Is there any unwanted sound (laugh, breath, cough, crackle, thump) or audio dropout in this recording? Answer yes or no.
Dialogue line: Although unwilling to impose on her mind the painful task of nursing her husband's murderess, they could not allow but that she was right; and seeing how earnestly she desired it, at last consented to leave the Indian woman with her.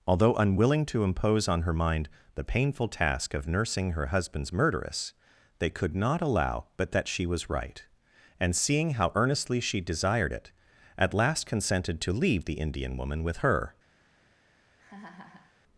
yes